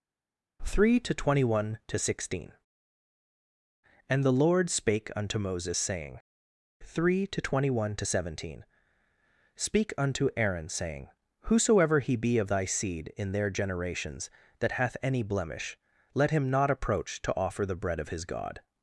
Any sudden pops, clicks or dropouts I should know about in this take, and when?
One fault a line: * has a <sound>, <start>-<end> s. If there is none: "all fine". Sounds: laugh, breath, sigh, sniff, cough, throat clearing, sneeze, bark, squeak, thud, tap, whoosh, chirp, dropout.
all fine